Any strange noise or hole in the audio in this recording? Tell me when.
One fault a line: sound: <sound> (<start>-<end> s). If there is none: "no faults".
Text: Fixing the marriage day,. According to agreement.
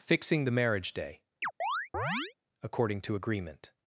sound: chirp (1.4-2.3 s)